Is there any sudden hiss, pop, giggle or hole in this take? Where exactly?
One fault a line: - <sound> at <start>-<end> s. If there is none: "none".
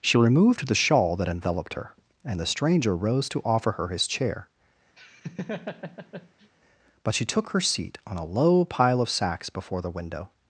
- laugh at 5.0-6.5 s